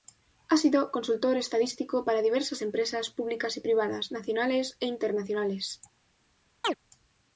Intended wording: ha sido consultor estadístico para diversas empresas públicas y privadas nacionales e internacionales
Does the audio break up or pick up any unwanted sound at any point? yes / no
yes